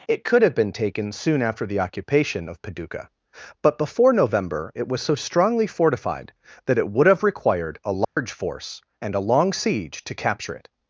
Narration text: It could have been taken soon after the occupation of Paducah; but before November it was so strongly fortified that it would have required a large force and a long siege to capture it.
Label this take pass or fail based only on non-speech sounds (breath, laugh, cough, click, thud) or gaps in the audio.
fail